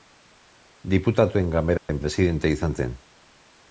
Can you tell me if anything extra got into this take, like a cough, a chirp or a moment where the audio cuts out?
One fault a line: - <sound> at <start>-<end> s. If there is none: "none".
- dropout at 1.8-1.9 s